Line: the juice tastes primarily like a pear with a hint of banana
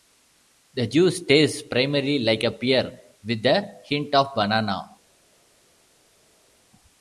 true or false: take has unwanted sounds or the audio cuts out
false